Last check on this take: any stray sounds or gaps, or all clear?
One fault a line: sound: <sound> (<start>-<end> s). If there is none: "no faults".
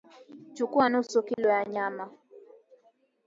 sound: dropout (1.3-1.4 s)